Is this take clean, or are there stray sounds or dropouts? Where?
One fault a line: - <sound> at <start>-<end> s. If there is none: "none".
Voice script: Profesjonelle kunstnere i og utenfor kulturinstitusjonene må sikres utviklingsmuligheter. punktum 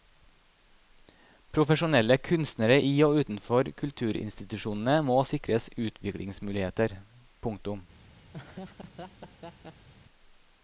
- laugh at 8.3-9.9 s